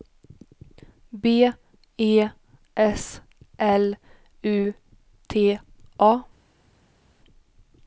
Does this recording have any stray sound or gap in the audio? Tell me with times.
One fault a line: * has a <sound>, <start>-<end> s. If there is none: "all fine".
all fine